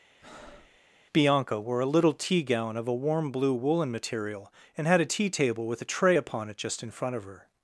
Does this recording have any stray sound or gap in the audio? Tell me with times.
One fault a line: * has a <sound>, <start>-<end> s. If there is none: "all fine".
* has a breath, 0.2-0.8 s